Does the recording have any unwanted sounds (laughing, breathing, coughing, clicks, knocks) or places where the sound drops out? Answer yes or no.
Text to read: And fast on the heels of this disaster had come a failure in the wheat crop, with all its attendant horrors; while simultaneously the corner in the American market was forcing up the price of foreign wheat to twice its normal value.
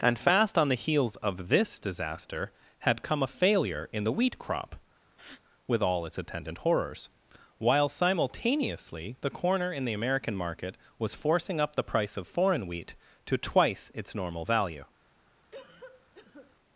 yes